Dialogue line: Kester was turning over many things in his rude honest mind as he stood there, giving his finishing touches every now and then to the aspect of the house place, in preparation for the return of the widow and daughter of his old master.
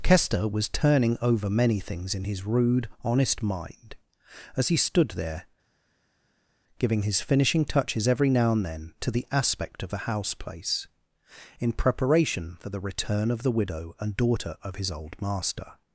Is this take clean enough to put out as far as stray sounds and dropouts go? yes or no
yes